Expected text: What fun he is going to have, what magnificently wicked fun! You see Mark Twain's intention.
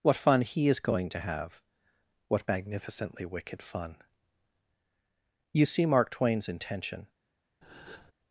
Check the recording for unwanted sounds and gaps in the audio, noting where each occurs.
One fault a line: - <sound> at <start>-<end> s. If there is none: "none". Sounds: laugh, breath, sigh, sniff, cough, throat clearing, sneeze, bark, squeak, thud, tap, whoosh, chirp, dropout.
- breath at 7.6-8.1 s